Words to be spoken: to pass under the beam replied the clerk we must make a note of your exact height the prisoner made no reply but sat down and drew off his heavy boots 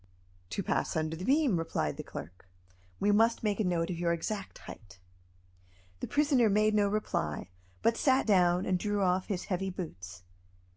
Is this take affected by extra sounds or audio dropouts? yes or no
no